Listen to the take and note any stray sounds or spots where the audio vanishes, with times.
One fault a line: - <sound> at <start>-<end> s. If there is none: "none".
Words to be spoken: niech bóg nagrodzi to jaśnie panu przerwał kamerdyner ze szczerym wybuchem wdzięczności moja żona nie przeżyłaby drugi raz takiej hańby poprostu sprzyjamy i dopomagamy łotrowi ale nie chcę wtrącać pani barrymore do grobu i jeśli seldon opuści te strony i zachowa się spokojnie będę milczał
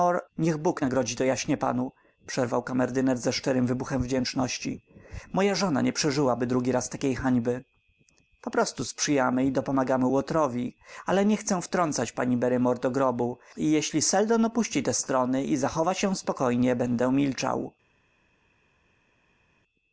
none